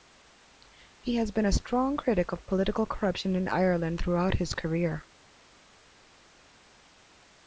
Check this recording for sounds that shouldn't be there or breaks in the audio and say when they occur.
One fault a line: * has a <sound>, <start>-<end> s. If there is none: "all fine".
all fine